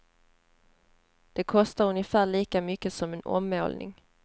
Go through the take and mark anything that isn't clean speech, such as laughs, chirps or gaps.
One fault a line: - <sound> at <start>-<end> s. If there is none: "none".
none